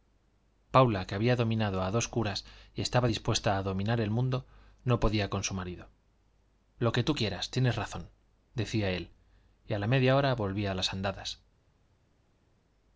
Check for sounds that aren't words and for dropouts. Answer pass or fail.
pass